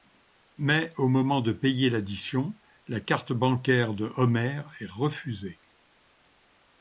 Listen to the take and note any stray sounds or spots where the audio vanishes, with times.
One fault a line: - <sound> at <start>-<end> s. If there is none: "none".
none